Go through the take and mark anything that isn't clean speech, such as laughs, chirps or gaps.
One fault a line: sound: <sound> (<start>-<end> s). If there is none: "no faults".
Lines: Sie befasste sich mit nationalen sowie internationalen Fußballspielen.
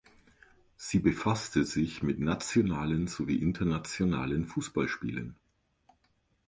no faults